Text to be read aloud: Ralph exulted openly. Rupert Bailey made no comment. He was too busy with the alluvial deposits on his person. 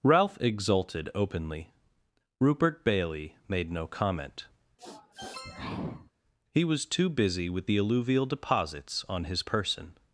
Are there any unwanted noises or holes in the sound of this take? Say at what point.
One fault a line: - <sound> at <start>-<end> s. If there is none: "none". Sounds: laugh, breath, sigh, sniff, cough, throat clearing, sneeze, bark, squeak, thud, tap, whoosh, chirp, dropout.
- sniff at 4.8-6.1 s